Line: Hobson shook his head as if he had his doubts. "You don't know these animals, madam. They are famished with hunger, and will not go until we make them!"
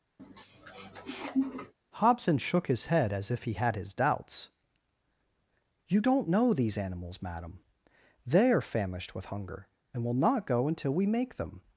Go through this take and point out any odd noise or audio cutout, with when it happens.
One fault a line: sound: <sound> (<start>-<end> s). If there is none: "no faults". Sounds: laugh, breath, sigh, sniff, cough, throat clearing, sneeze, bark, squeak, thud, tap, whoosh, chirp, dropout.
sound: sniff (0.2-1.7 s)